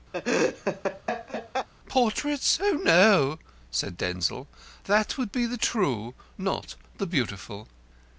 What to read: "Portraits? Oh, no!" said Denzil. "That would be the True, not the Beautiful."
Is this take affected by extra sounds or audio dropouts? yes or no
yes